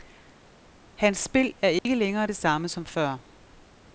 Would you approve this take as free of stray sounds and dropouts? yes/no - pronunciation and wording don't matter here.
no